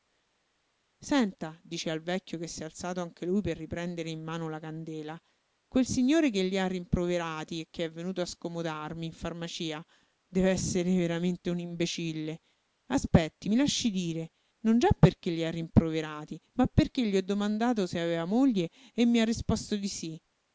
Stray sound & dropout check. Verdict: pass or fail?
pass